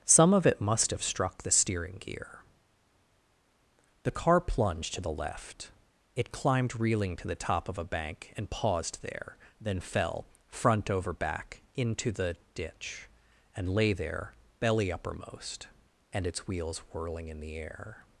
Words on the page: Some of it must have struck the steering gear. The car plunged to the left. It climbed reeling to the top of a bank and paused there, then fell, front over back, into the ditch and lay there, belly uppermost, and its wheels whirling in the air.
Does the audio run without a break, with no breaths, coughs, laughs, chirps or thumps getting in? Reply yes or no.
yes